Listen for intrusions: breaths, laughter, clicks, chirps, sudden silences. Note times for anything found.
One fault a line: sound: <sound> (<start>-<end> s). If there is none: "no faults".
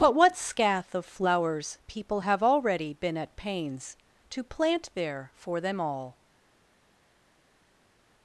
no faults